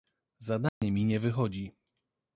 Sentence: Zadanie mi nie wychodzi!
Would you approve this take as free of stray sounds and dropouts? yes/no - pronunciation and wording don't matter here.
no